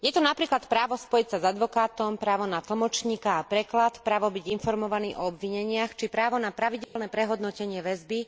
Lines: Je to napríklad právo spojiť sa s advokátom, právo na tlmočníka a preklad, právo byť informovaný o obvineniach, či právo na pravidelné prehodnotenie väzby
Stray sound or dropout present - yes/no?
yes